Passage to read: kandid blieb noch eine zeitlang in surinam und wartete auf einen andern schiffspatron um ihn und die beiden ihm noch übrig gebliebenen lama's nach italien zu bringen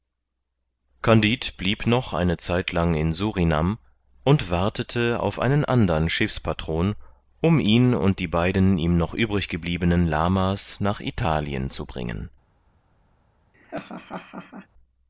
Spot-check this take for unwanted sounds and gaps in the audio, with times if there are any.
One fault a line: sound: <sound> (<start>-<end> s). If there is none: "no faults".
sound: laugh (13.5-14.7 s)